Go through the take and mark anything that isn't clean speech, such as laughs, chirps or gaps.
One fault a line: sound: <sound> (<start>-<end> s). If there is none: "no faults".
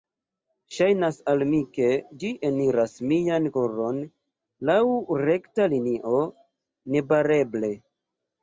no faults